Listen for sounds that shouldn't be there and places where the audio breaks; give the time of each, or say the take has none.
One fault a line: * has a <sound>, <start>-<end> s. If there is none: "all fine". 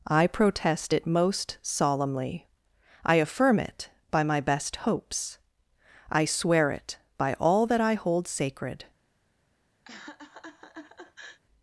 * has a laugh, 9.9-11.4 s